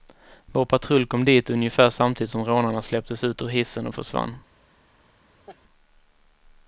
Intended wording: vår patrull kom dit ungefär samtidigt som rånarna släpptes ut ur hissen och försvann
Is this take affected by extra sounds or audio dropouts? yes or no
yes